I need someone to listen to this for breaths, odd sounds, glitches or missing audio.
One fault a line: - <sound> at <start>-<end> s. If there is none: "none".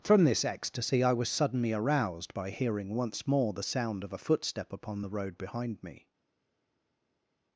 none